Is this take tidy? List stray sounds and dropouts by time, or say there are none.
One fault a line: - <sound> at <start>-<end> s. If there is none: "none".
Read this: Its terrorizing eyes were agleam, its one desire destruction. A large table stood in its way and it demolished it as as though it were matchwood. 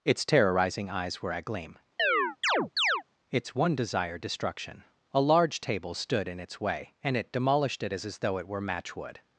- chirp at 2.0-3.0 s